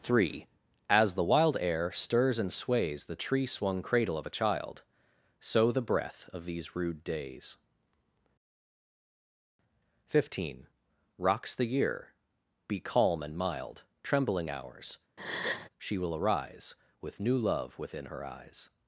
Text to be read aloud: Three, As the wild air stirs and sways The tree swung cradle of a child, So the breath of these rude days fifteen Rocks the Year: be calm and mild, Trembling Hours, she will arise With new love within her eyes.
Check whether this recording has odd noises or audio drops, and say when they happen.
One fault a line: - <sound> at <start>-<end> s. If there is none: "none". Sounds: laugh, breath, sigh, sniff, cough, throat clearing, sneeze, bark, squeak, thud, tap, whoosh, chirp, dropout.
- breath at 15.2-15.7 s